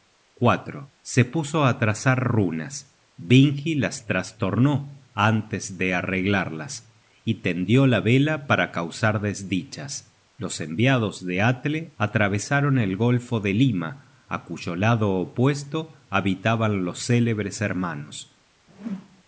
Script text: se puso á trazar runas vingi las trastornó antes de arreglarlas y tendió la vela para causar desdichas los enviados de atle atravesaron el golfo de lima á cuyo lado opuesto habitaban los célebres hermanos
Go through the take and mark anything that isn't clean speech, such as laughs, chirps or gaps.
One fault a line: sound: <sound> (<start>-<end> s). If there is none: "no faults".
sound: whoosh (18.7-19.2 s)